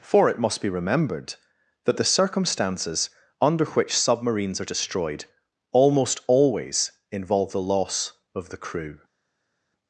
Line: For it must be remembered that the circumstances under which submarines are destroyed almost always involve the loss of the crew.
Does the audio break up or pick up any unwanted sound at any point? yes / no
no